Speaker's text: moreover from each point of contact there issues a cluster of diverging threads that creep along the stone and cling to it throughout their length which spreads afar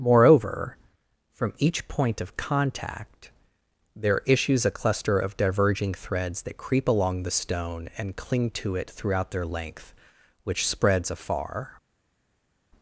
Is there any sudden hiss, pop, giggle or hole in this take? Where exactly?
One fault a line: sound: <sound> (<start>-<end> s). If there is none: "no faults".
no faults